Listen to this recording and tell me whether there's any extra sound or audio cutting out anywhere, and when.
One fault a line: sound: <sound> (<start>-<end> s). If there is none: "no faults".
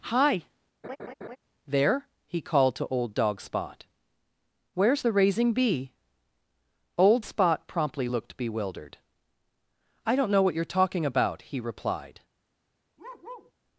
sound: laugh (0.8-1.4 s)
sound: bark (13.0-13.5 s)